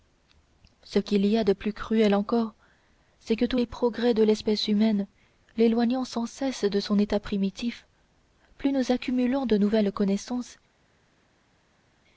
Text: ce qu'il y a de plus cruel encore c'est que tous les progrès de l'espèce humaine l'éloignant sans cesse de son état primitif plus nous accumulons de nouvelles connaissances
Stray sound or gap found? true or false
false